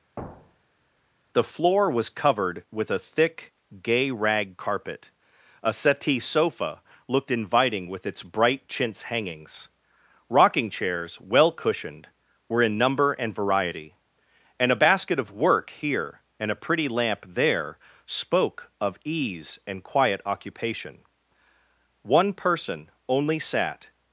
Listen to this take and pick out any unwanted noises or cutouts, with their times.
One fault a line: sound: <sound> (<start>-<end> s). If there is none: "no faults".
sound: thud (0.2-0.8 s)